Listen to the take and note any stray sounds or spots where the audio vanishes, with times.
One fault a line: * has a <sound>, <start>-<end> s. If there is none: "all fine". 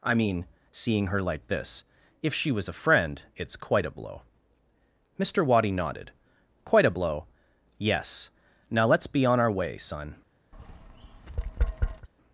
* has a tap, 10.5-12.1 s